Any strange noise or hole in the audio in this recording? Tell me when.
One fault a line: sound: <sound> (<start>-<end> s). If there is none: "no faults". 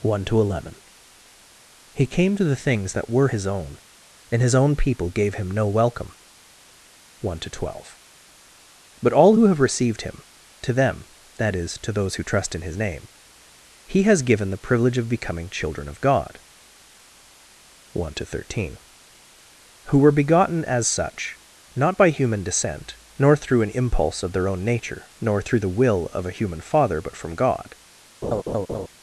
sound: laugh (28.2-28.9 s)